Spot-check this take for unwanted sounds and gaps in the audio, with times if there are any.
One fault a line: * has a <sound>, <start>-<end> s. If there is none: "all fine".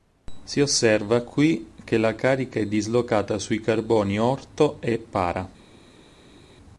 all fine